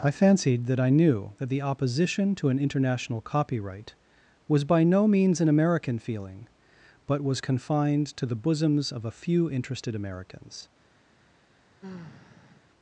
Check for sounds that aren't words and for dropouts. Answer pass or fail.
fail